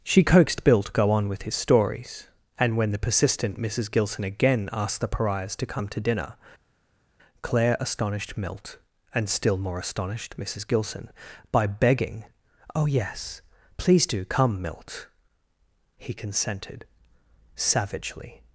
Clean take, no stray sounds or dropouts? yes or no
yes